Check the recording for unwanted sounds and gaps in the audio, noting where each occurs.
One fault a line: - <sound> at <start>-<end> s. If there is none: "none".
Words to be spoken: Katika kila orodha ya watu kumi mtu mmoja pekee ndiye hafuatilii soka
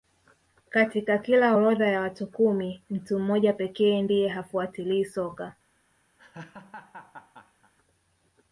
- laugh at 6.2-7.7 s